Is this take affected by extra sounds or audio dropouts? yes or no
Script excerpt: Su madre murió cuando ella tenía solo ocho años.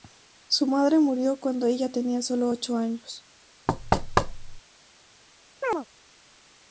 yes